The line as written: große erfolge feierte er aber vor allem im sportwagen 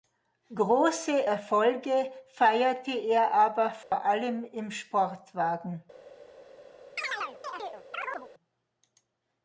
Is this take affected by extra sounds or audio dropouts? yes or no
yes